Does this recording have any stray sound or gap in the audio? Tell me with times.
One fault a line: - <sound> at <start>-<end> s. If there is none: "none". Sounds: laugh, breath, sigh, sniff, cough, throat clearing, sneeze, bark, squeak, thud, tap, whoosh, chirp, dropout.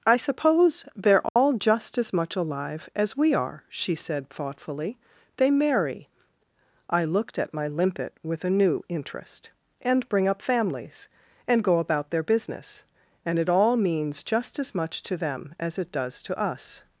- dropout at 1.3-1.4 s